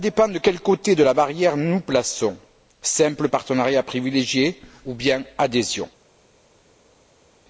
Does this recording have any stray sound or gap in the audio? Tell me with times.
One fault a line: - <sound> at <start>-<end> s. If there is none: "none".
none